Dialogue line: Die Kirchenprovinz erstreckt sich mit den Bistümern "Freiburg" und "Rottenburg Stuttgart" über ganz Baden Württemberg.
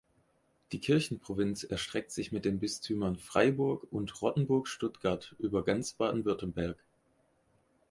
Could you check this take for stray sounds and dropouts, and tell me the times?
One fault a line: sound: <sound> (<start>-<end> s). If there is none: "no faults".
no faults